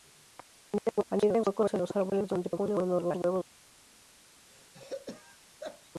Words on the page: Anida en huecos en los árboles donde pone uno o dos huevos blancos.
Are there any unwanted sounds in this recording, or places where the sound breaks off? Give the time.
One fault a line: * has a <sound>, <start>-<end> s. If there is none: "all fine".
* has a throat clearing, 4.5-5.9 s